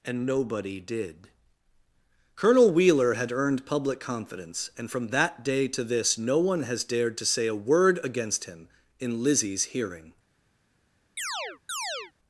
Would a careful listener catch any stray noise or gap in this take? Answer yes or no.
yes